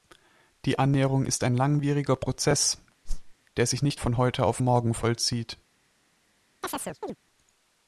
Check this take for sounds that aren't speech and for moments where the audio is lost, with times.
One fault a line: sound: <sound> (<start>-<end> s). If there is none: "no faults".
sound: whoosh (3.1-3.3 s)
sound: chirp (6.6-7.2 s)